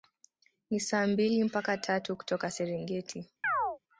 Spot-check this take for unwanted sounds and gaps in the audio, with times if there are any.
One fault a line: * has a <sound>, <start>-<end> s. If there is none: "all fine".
* has a chirp, 3.4-3.8 s